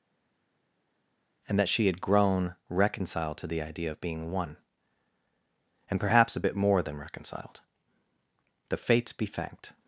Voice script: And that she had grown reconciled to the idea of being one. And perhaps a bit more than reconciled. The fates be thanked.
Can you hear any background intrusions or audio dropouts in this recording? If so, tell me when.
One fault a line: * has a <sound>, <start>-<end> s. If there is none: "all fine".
all fine